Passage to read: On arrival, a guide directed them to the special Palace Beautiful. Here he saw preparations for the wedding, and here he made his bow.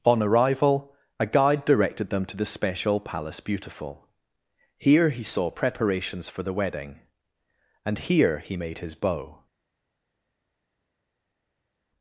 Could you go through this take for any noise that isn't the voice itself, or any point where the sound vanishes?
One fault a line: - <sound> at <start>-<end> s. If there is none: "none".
none